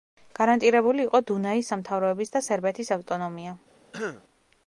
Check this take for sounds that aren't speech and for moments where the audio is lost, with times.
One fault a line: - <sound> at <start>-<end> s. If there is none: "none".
- throat clearing at 3.9-4.2 s